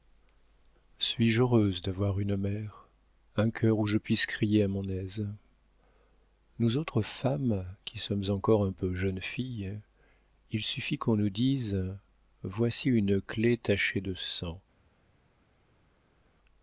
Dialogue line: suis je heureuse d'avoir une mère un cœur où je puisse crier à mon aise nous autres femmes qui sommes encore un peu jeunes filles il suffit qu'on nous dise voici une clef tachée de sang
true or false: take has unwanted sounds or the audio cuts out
false